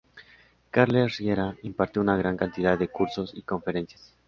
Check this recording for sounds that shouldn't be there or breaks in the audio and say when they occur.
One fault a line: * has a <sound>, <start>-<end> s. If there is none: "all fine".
all fine